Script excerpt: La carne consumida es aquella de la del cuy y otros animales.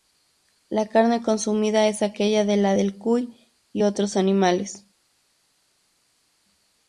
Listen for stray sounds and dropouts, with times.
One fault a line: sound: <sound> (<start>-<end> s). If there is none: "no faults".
no faults